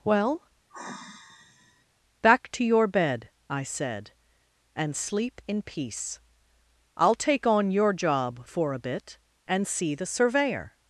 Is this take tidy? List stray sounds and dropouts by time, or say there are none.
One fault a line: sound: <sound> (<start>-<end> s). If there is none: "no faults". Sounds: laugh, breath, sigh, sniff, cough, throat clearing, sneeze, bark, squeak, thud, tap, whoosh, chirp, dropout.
sound: sigh (0.7-1.8 s)